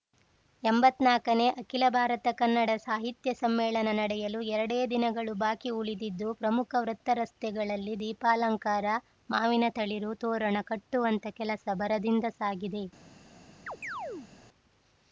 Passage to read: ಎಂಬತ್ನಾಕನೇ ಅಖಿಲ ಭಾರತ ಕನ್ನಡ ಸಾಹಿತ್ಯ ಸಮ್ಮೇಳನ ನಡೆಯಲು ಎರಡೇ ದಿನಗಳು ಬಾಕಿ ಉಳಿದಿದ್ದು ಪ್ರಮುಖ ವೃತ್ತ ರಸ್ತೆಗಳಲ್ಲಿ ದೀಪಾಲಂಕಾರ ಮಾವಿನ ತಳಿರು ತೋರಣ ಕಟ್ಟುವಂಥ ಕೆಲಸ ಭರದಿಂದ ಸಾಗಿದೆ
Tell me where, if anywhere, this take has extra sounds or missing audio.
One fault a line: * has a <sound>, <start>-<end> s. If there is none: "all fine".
* has a chirp, 13.7-14.3 s